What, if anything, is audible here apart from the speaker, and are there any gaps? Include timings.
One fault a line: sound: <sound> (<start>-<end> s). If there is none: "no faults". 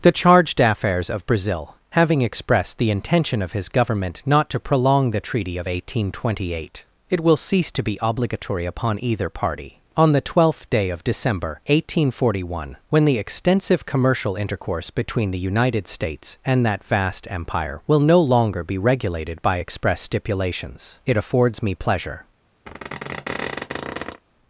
sound: squeak (22.7-24.2 s)